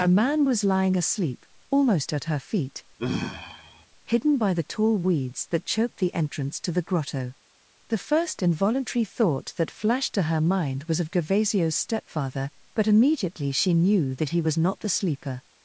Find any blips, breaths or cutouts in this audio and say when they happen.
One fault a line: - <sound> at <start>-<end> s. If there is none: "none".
- sigh at 3.0-3.9 s